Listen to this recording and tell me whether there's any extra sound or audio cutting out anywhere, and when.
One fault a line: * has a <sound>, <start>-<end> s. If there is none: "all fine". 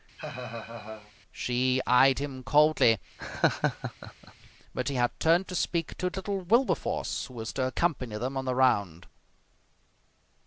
* has a laugh, 0.2-1.1 s
* has a laugh, 3.2-4.5 s